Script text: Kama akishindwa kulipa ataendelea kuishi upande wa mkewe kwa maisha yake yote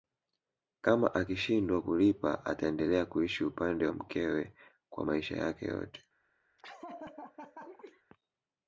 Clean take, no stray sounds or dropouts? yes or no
no